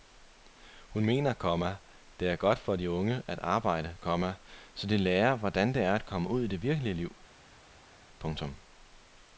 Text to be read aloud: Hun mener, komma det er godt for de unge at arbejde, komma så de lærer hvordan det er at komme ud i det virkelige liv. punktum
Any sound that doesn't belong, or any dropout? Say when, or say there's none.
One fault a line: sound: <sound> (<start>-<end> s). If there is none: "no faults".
no faults